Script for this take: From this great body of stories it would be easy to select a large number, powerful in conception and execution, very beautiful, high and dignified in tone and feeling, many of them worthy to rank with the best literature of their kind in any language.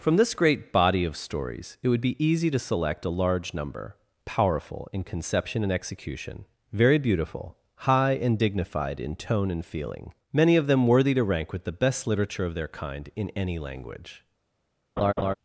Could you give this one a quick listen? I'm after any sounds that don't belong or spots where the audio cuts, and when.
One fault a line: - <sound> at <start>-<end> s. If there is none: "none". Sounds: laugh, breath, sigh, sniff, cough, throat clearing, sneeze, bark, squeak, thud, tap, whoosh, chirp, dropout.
- laugh at 15.0-15.3 s